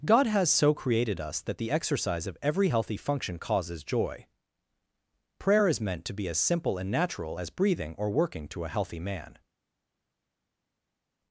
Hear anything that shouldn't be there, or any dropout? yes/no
no